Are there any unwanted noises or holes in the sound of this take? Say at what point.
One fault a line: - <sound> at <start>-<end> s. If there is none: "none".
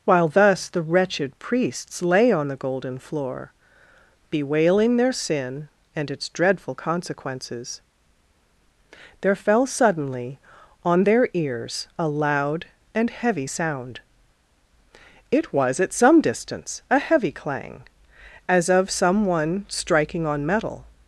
none